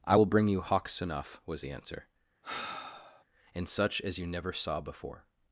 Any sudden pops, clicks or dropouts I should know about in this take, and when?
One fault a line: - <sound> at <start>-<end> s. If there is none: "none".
- sigh at 2.4-3.2 s